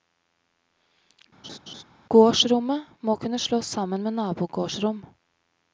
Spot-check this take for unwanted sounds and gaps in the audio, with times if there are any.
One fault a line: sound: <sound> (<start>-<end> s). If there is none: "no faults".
sound: laugh (1.4-1.8 s)